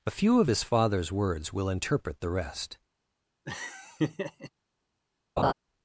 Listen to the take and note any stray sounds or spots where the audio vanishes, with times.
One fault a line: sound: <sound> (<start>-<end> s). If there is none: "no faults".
sound: laugh (3.5-4.5 s)
sound: laugh (5.4-5.5 s)